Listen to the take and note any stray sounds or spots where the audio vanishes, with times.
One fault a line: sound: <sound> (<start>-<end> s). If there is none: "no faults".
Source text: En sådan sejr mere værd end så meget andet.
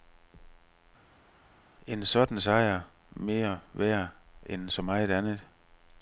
no faults